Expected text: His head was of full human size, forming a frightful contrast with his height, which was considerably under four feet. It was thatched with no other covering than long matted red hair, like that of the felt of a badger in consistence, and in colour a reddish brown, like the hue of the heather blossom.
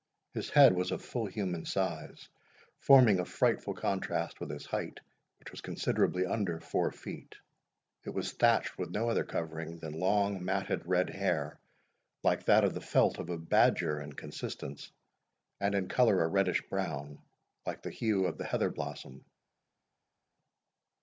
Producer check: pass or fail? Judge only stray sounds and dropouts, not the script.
pass